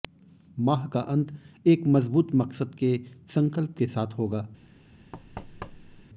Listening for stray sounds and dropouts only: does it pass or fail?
fail